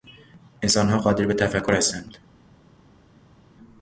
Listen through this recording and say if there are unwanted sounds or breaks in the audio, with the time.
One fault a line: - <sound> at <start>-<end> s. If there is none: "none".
none